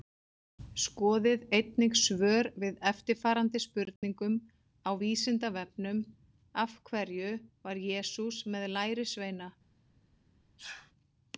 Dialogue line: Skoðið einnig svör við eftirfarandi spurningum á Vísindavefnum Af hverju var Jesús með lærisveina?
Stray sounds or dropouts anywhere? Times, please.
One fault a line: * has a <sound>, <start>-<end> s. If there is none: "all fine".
* has a dropout, 4.0-4.0 s
* has a sneeze, 10.6-10.9 s